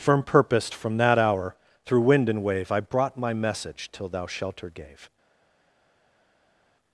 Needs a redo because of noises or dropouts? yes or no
no